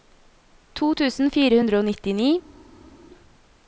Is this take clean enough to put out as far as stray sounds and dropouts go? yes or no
yes